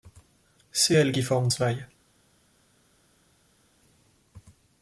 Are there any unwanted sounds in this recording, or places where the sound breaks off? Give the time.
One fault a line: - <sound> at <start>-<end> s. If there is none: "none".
none